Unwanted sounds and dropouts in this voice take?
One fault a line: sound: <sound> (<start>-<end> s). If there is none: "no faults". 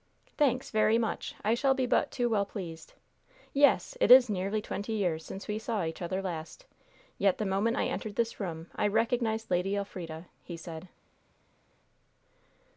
no faults